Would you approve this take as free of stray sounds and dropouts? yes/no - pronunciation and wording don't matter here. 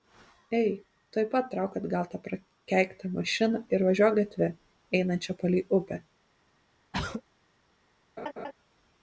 no